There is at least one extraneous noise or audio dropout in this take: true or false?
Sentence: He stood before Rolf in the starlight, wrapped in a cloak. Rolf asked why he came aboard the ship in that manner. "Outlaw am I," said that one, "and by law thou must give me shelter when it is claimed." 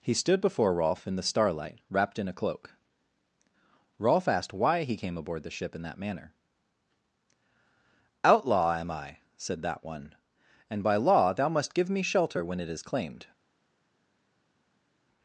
false